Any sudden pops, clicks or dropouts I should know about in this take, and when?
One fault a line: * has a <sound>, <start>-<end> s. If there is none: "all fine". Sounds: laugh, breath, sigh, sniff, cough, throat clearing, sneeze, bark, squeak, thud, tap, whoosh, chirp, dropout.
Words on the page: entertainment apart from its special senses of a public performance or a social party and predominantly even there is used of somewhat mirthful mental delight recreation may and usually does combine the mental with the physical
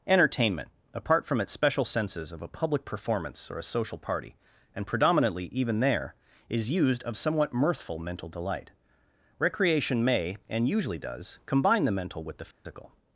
* has a dropout, 12.5-12.7 s